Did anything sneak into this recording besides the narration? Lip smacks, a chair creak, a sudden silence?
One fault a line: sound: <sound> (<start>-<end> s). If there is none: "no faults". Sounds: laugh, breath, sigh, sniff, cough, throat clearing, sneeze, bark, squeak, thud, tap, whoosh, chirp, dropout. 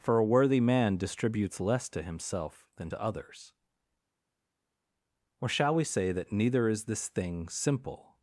no faults